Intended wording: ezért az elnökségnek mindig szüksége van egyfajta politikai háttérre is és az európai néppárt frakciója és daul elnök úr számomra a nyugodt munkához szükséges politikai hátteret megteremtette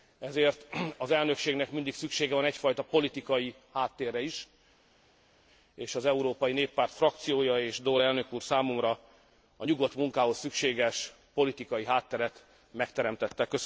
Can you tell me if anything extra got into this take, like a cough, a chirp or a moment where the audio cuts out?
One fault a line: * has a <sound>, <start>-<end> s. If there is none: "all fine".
all fine